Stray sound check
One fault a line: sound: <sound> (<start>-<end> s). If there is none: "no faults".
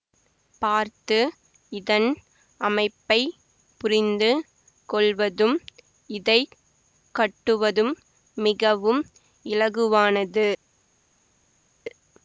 no faults